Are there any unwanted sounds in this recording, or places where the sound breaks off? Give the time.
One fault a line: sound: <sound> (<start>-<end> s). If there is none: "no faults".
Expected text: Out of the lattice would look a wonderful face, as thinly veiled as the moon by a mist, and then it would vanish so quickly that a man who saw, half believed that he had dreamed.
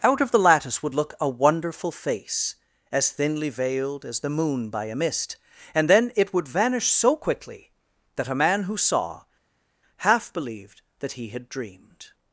no faults